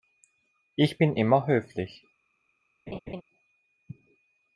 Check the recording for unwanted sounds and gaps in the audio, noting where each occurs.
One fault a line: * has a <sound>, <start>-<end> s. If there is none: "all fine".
* has a laugh, 2.9-3.2 s